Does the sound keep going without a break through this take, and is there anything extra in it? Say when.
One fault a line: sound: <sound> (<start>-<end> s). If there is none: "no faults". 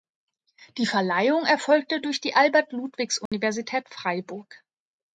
sound: dropout (3.3-3.3 s)